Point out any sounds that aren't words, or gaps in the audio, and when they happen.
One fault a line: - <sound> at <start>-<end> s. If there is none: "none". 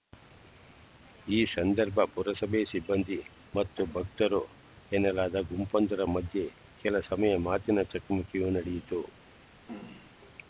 - throat clearing at 9.7-10.1 s